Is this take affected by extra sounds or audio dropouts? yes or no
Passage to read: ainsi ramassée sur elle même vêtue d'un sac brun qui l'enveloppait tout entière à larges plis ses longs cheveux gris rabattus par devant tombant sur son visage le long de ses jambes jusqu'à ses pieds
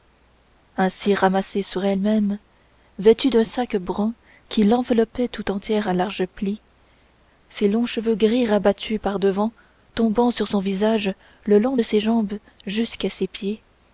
no